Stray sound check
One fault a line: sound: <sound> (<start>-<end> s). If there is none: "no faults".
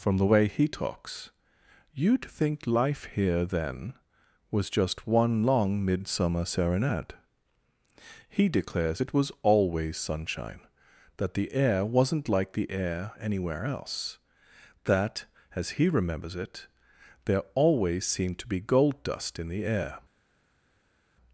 no faults